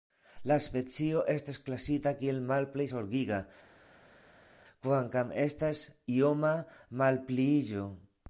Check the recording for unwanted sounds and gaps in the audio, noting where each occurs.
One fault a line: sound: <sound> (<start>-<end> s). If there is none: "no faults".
no faults